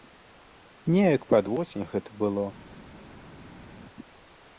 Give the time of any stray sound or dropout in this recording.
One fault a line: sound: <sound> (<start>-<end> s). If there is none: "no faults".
no faults